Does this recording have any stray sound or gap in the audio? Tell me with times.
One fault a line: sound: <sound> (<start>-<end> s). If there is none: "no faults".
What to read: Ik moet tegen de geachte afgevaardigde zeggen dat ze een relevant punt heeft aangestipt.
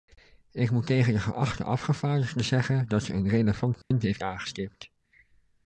sound: dropout (3.8-3.9 s)